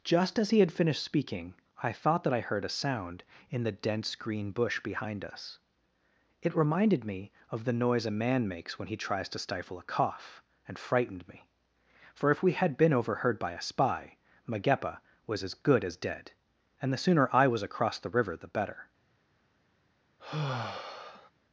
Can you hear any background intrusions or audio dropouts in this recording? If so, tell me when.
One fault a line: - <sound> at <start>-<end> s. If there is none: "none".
- sigh at 20.2-21.3 s